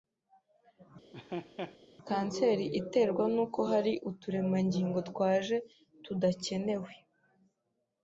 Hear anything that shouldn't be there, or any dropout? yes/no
yes